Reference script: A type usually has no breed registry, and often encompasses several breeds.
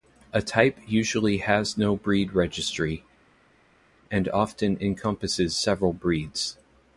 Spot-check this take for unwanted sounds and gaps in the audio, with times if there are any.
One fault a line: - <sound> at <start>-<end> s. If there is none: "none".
none